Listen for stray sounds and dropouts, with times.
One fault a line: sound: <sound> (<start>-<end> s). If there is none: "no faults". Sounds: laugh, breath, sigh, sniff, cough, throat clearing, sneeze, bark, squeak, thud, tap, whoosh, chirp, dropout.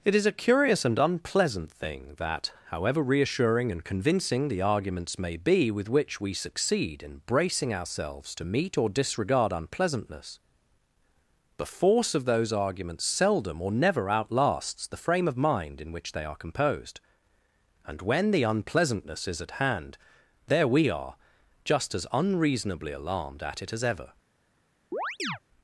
sound: chirp (24.9-25.4 s)